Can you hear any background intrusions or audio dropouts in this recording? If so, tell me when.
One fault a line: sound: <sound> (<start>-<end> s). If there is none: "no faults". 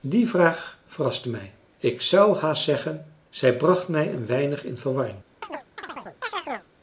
sound: chirp (5.4-6.7 s)